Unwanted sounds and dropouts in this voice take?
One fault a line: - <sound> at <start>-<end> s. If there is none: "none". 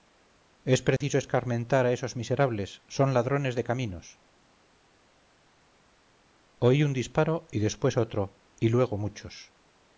- dropout at 1.0-1.0 s